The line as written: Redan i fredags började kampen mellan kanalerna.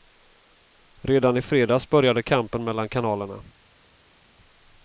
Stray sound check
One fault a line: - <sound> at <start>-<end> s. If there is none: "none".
none